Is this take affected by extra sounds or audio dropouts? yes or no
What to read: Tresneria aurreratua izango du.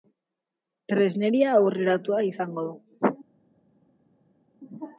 no